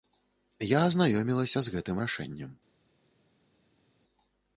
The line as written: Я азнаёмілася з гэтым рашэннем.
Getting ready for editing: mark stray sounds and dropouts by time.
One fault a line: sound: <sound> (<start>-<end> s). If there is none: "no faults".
no faults